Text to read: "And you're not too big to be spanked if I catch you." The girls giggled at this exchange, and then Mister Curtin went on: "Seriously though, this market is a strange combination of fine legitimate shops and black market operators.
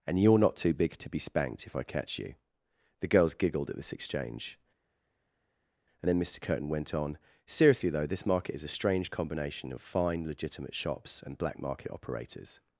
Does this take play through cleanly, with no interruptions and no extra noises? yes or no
yes